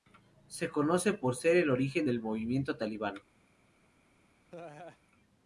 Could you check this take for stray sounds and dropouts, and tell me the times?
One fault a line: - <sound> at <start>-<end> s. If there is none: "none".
- laugh at 4.5-5.0 s